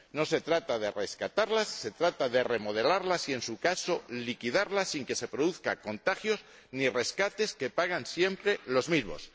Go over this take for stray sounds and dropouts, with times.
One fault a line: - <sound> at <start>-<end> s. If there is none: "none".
none